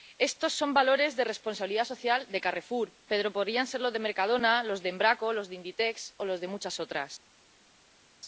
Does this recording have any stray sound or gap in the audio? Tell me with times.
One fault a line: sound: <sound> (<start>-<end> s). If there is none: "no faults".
no faults